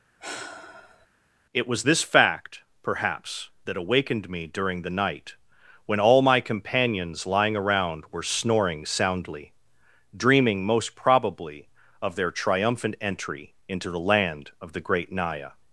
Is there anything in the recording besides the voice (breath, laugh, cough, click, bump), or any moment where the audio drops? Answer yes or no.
yes